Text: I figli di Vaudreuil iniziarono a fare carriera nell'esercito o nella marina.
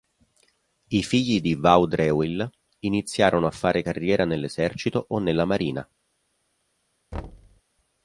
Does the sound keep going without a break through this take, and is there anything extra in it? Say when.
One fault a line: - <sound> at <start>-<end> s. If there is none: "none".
- thud at 7.1-7.6 s